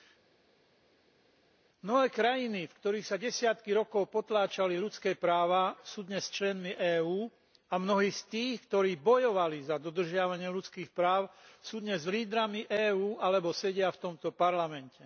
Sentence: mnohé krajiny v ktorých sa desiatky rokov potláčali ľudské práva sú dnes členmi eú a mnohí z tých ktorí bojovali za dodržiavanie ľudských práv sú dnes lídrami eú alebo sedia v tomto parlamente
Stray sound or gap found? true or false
false